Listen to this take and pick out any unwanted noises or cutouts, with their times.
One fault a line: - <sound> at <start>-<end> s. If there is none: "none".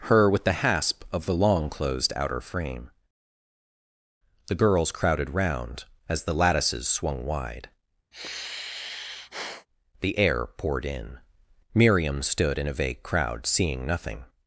- sigh at 8.1-9.7 s